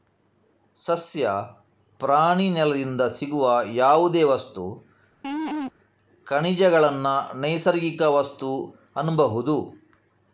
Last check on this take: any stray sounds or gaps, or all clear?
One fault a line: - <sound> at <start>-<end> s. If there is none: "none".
- laugh at 5.2-5.7 s